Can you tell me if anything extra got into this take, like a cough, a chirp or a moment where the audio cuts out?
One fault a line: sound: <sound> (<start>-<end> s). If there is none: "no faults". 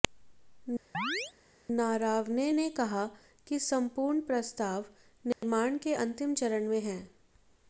sound: chirp (0.9-1.3 s)
sound: dropout (5.3-5.4 s)